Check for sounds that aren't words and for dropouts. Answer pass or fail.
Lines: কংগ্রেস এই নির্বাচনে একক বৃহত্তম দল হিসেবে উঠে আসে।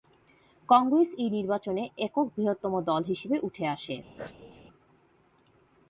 fail